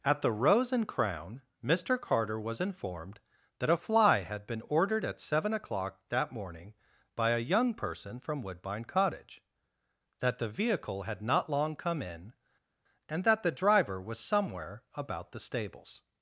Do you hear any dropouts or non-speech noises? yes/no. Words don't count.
no